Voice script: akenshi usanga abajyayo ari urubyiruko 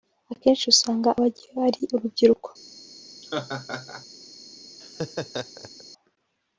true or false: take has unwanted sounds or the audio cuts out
true